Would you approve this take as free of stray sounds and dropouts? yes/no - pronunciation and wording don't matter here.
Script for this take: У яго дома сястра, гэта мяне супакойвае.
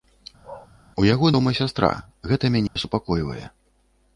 no